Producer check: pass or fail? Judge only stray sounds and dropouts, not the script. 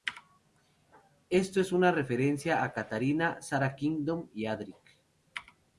pass